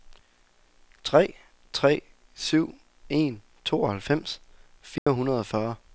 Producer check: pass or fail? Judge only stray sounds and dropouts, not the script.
fail